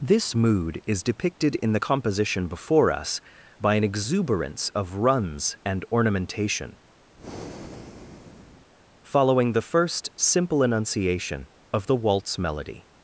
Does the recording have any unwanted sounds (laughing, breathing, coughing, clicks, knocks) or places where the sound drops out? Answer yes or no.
yes